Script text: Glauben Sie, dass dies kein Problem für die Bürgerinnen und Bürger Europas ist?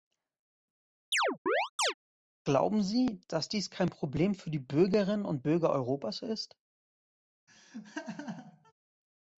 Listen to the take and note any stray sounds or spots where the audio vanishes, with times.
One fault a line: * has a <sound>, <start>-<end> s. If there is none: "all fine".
* has a chirp, 1.1-1.9 s
* has a laugh, 7.5-8.7 s